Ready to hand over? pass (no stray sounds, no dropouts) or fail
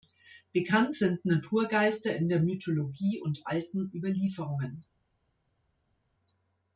pass